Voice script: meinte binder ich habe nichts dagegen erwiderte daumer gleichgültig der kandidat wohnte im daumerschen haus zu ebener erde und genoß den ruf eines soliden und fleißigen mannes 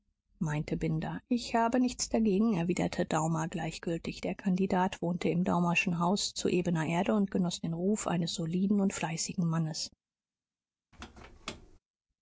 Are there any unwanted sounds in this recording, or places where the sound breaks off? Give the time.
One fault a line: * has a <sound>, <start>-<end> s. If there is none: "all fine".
* has a squeak, 10.9-11.8 s